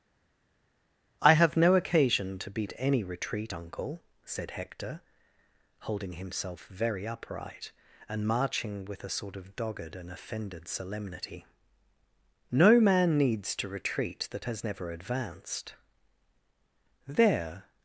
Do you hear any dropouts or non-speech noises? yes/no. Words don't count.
no